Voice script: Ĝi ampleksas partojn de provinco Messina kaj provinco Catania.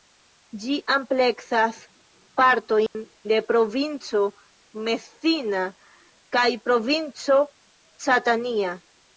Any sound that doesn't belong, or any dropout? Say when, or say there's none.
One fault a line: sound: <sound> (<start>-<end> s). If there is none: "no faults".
sound: dropout (2.9-2.9 s)